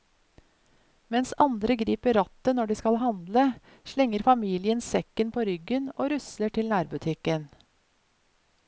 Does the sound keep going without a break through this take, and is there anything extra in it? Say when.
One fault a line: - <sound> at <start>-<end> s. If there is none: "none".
none